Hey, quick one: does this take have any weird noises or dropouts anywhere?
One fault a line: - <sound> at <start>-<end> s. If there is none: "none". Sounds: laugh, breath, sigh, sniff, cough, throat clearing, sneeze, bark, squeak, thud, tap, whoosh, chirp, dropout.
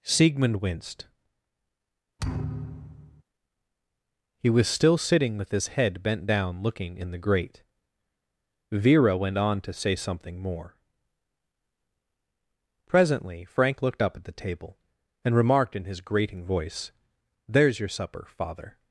- thud at 2.2-3.2 s